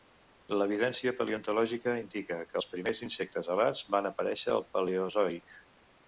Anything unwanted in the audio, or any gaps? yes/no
no